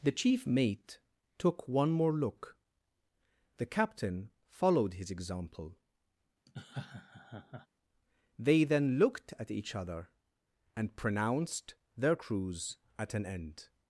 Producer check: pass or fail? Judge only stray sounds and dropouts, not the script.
fail